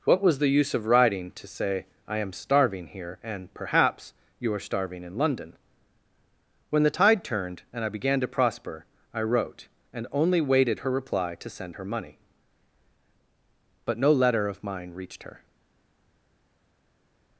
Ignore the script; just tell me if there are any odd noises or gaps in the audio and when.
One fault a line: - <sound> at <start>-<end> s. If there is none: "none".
none